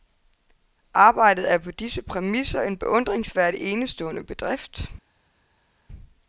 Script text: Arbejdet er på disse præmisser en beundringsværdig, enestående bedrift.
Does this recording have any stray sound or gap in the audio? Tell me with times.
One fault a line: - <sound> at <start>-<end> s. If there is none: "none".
none